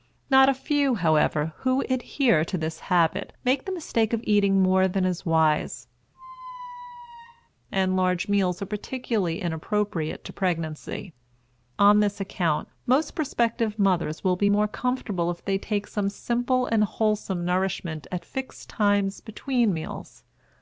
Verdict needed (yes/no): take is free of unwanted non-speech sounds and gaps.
no